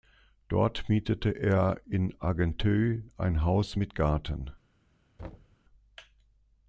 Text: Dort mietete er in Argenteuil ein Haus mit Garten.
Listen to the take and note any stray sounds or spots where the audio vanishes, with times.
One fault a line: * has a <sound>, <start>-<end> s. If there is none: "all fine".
* has a thud, 5.2-5.6 s